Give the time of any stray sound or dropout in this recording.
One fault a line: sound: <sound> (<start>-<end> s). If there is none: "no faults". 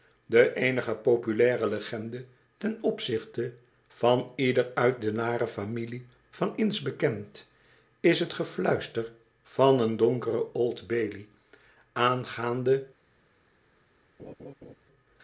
sound: laugh (14.2-14.8 s)